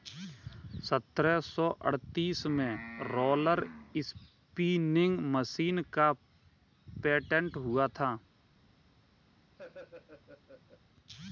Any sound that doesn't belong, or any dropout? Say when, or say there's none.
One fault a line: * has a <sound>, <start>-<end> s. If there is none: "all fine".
* has a laugh, 9.6-10.8 s